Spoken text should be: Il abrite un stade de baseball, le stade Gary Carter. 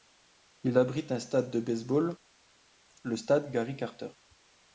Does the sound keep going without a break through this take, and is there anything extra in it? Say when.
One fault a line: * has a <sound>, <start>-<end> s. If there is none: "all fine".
all fine